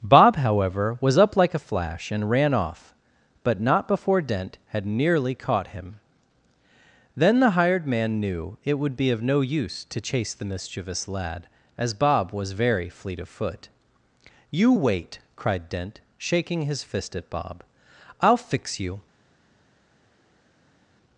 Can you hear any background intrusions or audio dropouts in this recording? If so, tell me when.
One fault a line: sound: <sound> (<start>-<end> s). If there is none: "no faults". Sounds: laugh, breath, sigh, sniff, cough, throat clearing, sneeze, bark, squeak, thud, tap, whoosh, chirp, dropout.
no faults